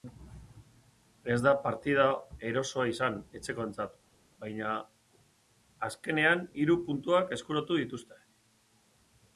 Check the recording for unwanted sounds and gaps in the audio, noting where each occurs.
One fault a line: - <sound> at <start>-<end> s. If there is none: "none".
none